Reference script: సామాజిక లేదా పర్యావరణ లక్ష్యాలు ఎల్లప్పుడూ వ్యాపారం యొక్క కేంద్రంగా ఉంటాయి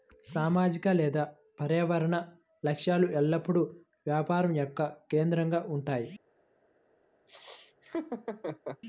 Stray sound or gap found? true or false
true